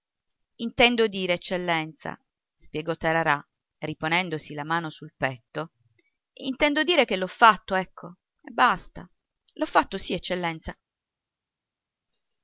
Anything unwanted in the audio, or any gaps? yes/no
no